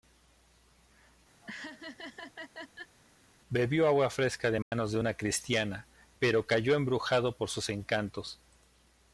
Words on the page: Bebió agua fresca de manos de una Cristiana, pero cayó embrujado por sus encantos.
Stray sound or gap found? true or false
true